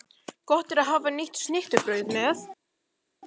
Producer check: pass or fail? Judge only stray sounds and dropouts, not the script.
pass